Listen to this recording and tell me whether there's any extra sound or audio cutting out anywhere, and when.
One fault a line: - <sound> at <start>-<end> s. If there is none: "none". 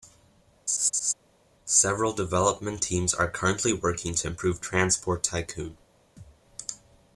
- laugh at 0.7-1.1 s
- thud at 6.2-6.4 s